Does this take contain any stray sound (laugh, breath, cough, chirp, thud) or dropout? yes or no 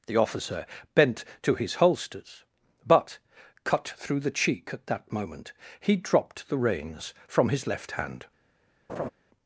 yes